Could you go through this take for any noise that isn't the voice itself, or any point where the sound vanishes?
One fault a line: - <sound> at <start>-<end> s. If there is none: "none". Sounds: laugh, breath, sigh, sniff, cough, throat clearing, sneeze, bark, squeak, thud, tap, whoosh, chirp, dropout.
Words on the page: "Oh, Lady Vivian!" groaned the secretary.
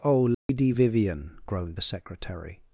- dropout at 0.3-0.5 s